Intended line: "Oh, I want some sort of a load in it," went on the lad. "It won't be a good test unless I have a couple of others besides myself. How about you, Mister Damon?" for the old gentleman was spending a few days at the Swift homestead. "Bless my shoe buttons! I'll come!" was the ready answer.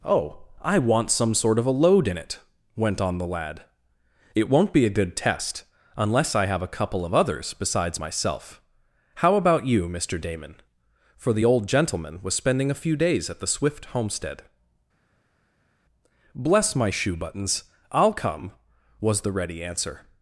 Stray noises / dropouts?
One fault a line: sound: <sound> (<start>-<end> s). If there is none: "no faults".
no faults